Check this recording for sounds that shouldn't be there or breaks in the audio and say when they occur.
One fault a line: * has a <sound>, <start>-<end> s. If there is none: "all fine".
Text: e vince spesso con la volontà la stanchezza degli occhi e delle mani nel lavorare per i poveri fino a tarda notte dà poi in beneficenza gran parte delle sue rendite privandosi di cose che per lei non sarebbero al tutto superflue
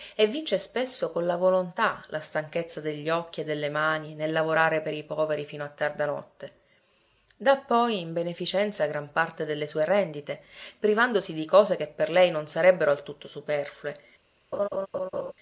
* has a laugh, 14.5-15.3 s